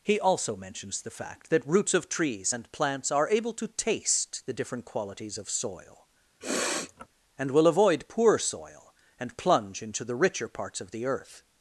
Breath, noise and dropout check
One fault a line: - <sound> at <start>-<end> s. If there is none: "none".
- sniff at 6.4-7.1 s